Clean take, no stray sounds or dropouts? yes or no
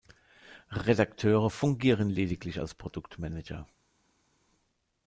yes